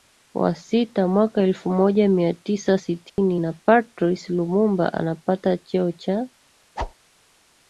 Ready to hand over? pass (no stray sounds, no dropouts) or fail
fail